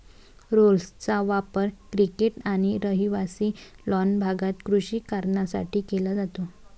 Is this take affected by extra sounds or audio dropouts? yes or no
no